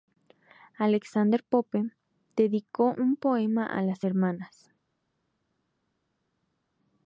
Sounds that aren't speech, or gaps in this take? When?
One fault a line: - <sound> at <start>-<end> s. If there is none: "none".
none